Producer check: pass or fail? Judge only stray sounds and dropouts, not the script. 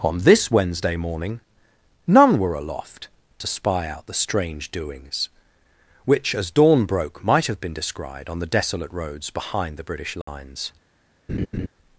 fail